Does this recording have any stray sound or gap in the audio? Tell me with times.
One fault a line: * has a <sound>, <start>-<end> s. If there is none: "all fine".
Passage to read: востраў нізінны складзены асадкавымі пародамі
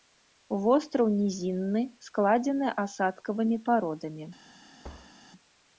* has a thud, 4.8-5.1 s